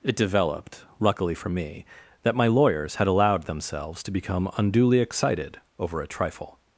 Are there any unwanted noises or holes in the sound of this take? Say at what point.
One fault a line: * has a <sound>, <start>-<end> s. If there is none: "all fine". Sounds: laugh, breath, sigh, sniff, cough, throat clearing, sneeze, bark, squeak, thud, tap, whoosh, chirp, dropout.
all fine